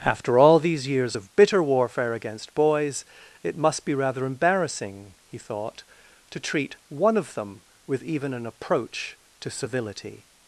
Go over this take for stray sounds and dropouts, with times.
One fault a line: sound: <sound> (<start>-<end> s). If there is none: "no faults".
no faults